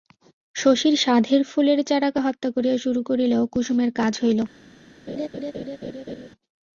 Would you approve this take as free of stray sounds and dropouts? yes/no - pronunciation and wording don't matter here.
no